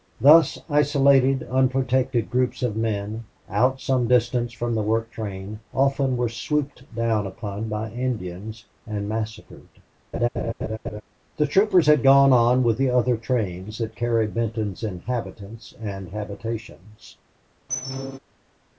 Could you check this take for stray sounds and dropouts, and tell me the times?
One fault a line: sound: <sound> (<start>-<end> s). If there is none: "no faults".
sound: laugh (10.1-11.0 s)
sound: squeak (17.7-18.2 s)